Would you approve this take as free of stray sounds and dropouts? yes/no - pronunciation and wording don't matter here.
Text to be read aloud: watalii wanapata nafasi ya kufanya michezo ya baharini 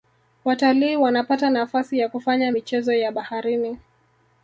yes